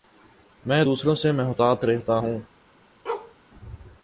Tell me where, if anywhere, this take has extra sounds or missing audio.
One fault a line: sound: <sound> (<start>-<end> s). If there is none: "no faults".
sound: bark (3.0-3.3 s)